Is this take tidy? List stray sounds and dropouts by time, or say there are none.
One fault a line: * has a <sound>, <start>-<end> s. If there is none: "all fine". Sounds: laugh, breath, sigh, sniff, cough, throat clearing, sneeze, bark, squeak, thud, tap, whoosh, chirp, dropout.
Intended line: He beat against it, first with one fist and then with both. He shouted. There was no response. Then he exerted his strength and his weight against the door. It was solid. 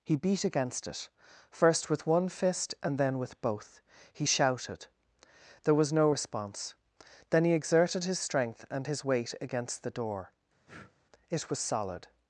* has a breath, 10.7-10.9 s